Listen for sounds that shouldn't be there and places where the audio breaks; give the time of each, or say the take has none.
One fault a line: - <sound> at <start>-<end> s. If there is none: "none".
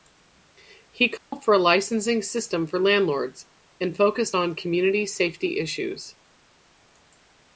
- dropout at 1.2-1.3 s